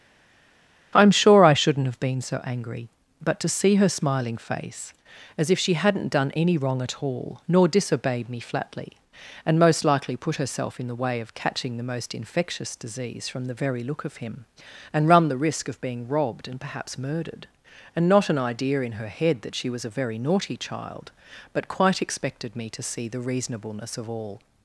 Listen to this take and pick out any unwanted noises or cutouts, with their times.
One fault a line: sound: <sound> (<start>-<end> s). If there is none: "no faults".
no faults